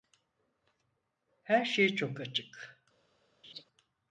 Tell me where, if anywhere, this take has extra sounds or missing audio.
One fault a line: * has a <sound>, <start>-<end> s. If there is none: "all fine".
* has a laugh, 3.4-3.6 s